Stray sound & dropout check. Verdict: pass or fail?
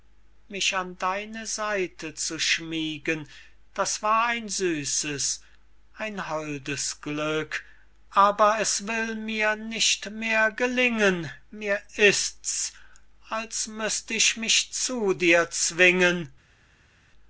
pass